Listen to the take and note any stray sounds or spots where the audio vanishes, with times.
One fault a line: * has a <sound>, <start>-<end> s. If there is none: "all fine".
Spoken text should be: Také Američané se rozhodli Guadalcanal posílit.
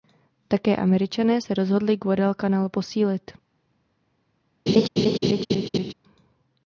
* has a laugh, 4.7-5.9 s